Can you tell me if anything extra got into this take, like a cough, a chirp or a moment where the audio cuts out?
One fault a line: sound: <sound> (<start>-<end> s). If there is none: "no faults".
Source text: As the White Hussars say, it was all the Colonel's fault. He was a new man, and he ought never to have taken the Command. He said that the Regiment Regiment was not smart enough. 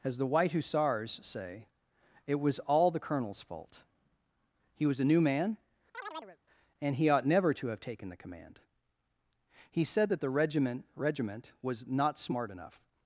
sound: chirp (5.9-6.4 s)